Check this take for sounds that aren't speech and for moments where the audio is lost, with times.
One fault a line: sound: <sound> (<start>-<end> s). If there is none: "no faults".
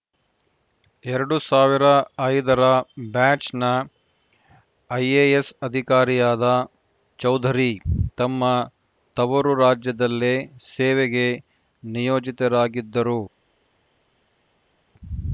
no faults